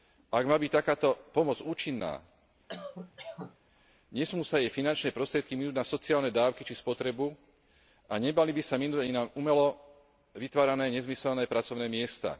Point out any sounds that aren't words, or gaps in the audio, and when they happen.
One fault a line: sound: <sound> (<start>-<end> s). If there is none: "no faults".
sound: cough (2.7-3.6 s)